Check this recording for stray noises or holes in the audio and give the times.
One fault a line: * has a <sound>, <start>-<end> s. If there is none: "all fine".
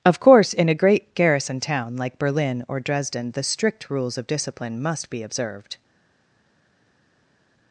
all fine